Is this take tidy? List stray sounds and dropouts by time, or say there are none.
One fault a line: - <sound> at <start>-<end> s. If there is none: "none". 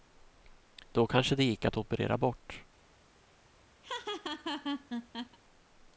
- laugh at 3.8-5.4 s